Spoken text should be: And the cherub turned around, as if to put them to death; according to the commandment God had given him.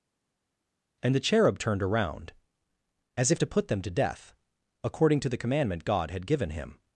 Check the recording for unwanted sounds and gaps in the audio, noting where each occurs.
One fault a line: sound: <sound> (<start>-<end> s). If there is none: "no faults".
no faults